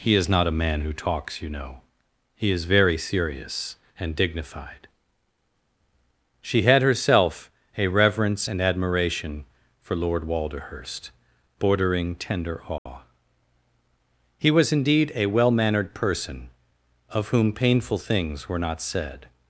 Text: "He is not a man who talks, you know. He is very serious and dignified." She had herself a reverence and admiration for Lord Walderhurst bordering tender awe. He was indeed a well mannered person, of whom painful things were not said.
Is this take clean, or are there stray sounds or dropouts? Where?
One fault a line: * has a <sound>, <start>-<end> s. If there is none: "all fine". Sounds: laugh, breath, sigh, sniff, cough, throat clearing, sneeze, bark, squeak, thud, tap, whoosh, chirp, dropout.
* has a dropout, 12.8-12.9 s